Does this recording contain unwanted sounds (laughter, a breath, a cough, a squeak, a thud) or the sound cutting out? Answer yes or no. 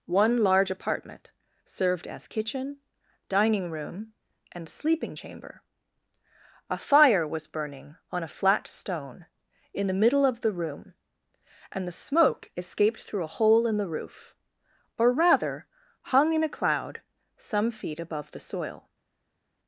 no